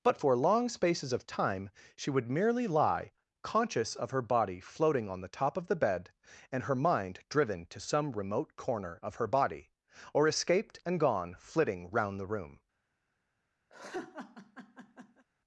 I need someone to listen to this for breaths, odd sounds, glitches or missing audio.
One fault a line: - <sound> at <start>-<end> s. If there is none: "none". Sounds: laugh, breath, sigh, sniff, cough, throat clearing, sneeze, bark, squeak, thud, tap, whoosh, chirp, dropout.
- laugh at 13.7-15.2 s